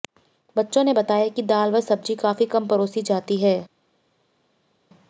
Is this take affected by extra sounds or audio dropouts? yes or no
no